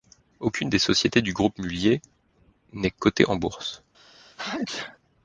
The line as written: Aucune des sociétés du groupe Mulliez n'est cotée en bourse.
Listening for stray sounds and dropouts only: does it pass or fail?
fail